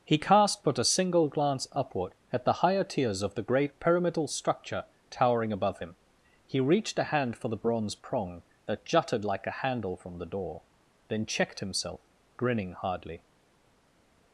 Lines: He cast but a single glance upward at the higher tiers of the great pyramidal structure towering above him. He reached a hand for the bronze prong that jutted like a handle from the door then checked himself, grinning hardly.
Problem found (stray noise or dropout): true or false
false